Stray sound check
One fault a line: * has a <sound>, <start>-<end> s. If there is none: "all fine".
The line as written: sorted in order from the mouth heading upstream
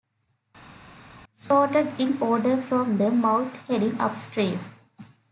all fine